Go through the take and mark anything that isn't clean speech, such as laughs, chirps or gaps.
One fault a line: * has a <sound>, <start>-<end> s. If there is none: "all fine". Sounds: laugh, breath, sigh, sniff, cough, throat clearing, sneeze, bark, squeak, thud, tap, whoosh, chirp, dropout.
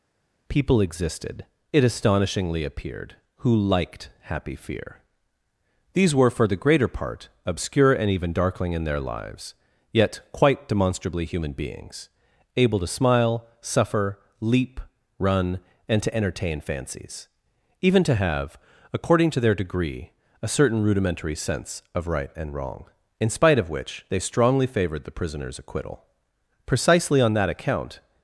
all fine